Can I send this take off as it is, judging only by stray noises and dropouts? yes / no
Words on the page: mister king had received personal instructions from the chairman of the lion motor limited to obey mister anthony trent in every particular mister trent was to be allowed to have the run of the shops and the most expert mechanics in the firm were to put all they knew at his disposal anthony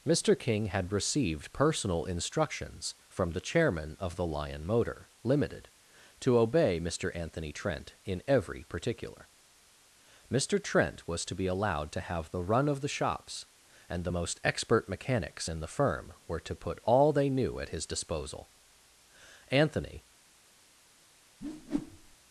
no